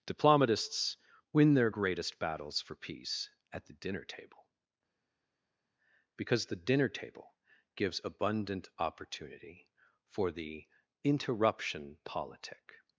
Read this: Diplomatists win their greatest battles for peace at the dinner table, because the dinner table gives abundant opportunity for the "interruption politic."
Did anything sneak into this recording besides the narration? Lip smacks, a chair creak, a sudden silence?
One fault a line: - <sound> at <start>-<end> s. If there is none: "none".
none